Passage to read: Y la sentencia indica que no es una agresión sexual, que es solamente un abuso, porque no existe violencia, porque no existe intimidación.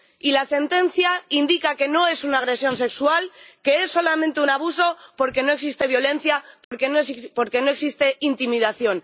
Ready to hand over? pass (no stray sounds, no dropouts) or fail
fail